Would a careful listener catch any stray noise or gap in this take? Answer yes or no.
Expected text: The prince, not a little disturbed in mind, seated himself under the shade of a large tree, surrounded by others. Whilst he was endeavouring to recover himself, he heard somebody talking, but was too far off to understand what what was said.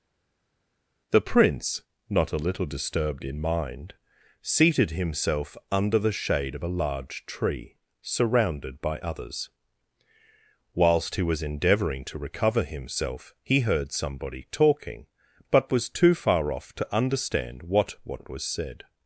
no